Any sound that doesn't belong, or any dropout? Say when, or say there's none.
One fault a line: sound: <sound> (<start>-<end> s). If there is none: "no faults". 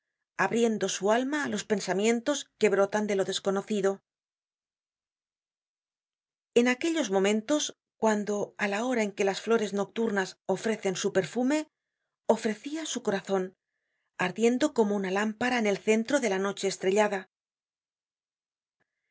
no faults